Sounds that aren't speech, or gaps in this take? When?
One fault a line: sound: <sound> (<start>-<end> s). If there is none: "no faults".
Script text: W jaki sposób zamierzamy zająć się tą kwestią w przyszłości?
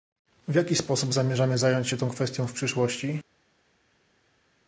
no faults